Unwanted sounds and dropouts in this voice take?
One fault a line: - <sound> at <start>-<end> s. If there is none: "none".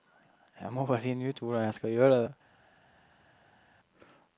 none